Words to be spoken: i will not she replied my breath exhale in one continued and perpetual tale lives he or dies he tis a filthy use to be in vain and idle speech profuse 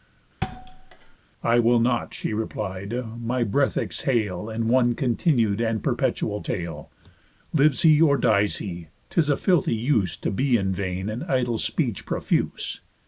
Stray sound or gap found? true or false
true